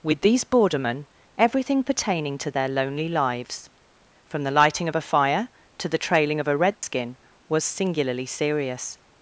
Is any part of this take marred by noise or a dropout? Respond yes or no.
yes